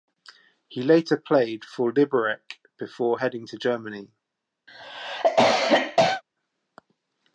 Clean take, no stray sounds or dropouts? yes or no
no